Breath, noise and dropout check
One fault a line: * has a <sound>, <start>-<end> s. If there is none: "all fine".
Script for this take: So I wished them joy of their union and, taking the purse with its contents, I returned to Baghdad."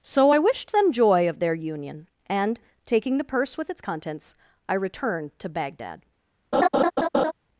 * has a laugh, 6.5-7.3 s